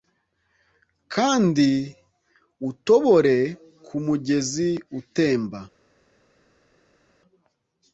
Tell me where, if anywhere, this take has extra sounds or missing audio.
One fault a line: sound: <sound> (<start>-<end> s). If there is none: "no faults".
no faults